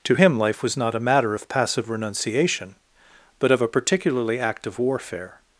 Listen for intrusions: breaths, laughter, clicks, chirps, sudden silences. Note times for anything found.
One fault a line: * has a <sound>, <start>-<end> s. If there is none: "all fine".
all fine